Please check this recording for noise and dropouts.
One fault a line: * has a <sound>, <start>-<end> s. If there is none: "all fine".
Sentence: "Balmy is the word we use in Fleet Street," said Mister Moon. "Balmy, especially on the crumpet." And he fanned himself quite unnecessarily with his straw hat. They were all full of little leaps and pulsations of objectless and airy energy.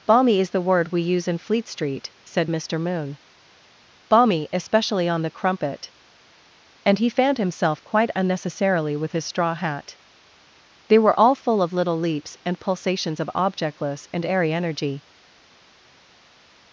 all fine